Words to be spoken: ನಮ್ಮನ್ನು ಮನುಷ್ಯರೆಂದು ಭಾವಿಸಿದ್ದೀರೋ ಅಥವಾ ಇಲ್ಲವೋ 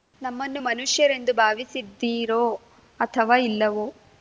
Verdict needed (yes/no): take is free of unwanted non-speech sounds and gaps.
yes